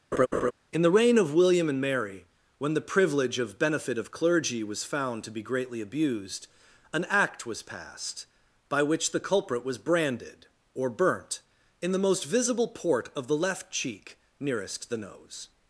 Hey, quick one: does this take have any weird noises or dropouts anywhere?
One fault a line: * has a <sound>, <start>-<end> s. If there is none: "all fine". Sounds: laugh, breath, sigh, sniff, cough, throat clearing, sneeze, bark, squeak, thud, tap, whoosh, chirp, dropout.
* has a laugh, 0.1-0.5 s